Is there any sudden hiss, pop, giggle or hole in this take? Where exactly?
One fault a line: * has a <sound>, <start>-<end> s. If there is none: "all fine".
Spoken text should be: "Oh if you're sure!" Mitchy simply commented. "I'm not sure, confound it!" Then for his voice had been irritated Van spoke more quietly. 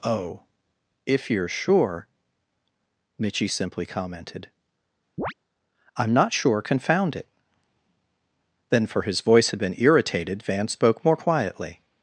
* has a chirp, 5.2-5.3 s